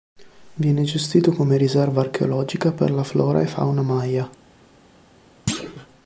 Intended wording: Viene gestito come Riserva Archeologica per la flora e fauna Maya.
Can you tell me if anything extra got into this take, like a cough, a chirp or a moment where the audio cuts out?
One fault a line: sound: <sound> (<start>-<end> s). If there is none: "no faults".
sound: thud (5.5-5.9 s)